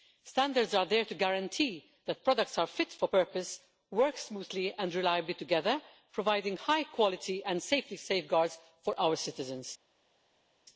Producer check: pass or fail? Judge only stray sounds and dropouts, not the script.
pass